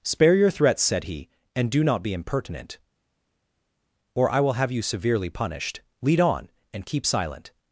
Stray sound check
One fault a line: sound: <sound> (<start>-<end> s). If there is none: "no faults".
no faults